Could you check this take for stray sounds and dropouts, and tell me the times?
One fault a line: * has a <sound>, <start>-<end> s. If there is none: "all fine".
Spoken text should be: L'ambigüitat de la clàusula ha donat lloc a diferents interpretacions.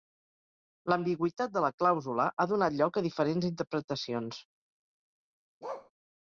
* has a bark, 5.6-5.9 s